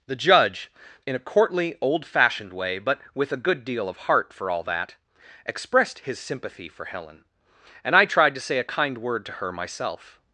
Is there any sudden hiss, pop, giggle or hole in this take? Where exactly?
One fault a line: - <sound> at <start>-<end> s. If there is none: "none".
none